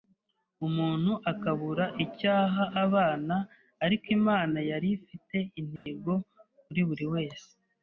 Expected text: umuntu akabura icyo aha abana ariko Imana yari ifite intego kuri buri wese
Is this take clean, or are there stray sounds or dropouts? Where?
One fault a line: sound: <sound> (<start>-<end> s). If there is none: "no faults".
sound: dropout (5.8-5.9 s)